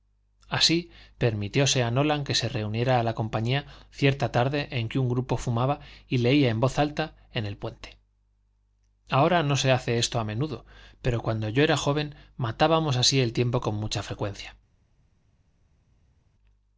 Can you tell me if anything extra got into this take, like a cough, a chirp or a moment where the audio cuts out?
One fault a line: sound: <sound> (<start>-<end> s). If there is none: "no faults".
no faults